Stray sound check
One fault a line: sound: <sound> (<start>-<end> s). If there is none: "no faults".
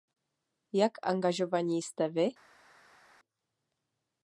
no faults